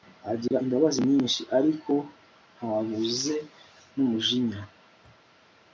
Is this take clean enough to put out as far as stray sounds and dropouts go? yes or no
no